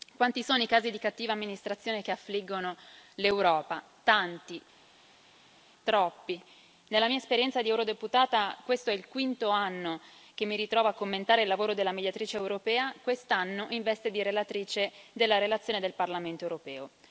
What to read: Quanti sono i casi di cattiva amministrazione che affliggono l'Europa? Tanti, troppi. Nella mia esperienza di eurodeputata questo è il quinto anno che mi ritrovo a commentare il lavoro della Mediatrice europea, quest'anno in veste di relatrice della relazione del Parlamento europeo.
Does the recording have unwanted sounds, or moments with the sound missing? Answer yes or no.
no